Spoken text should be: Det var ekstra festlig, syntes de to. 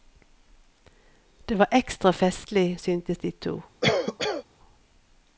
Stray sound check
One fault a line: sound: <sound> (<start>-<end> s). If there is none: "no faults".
sound: cough (3.8-4.4 s)